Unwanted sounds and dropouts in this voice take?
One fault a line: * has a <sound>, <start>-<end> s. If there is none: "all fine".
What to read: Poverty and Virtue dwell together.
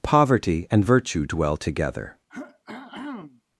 * has a throat clearing, 2.3-3.4 s